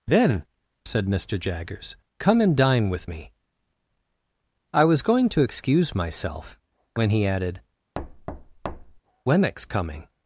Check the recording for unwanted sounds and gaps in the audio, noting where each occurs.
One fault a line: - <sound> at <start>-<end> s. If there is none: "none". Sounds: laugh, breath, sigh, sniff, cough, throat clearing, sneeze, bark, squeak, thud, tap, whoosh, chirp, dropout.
- thud at 7.9-9.0 s